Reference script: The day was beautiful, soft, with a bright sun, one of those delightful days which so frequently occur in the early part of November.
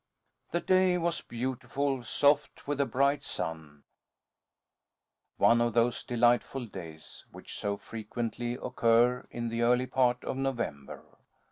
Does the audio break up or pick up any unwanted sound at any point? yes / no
no